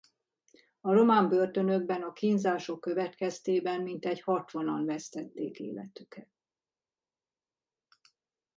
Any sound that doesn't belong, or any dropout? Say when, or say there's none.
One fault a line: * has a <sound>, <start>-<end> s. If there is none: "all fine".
all fine